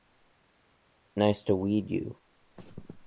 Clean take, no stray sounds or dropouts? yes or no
yes